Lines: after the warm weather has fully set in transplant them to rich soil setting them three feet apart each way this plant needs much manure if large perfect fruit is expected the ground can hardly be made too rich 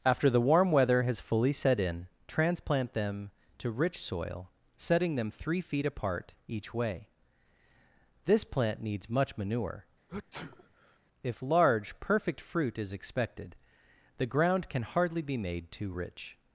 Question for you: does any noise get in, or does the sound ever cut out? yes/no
yes